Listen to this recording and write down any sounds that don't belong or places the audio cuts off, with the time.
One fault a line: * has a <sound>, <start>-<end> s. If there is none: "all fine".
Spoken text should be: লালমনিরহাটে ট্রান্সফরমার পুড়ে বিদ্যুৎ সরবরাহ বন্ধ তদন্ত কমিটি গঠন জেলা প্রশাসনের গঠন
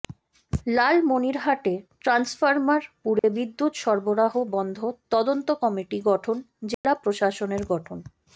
* has a dropout, 3.2-3.2 s
* has a dropout, 6.7-6.8 s